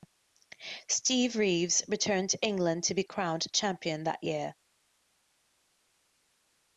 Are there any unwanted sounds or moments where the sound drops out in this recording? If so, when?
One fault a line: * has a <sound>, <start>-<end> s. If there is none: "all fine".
all fine